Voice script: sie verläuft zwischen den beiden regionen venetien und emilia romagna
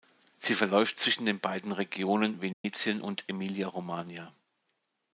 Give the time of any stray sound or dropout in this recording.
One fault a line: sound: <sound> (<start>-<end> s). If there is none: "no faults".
sound: dropout (2.5-2.6 s)